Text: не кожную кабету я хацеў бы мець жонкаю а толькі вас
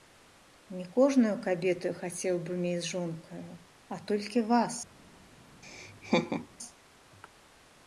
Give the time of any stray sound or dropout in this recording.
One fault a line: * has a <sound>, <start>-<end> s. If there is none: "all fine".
* has a laugh, 5.6-6.5 s